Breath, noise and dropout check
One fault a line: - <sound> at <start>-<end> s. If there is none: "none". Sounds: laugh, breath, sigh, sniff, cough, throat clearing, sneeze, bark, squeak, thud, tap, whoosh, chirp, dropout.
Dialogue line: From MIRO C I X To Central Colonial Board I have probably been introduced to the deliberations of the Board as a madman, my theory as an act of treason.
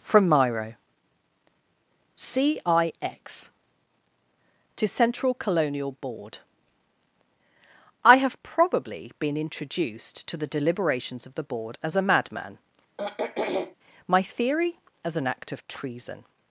- throat clearing at 13.0-13.8 s